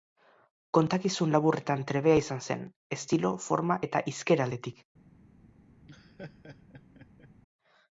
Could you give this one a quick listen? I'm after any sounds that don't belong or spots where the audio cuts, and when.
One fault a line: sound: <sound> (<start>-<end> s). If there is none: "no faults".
sound: laugh (5.9-7.3 s)